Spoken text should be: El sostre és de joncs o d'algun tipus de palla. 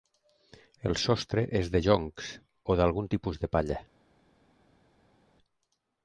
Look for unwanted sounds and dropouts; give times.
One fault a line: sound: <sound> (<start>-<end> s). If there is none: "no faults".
no faults